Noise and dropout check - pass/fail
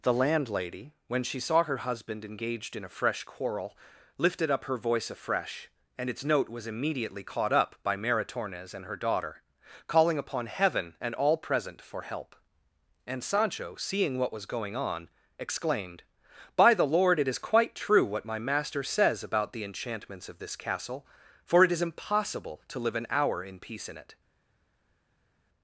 pass